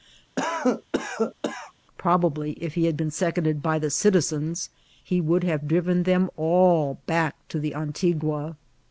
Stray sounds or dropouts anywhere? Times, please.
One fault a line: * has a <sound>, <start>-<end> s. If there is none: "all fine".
* has a cough, 0.4-1.7 s